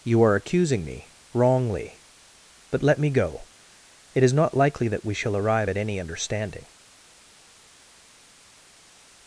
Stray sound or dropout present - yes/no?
no